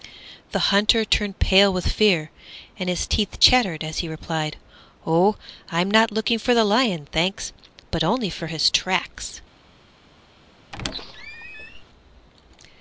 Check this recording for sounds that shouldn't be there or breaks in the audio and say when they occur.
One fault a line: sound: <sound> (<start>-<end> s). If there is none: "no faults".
sound: squeak (10.7-11.8 s)